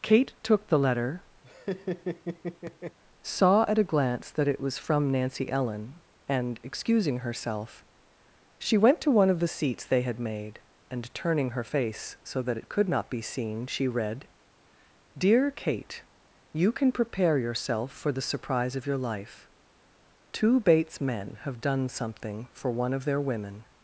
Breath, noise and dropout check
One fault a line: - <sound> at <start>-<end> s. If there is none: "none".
- laugh at 1.4-3.0 s